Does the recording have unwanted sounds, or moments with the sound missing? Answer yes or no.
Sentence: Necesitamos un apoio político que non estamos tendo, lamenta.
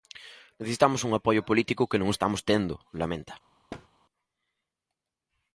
yes